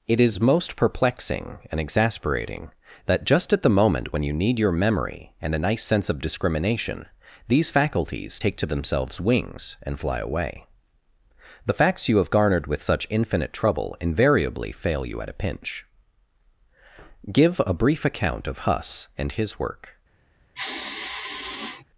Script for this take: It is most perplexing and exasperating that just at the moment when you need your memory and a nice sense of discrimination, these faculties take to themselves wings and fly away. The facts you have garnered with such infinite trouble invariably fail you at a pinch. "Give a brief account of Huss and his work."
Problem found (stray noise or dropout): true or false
true